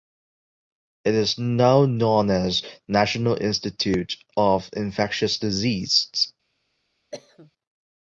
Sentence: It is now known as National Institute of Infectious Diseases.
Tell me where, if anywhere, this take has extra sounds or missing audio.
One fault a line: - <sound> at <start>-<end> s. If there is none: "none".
- cough at 7.1-7.5 s